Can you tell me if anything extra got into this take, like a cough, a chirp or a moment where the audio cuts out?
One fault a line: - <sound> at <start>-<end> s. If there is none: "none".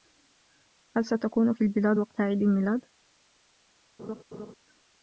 - laugh at 4.0-4.5 s